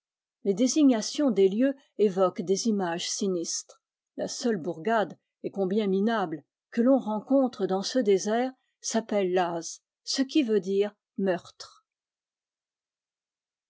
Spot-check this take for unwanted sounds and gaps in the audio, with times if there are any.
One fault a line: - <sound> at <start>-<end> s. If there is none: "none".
none